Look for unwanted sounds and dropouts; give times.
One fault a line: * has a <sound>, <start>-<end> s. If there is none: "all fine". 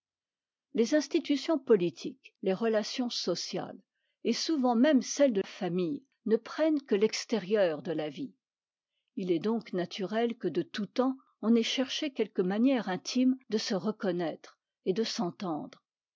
all fine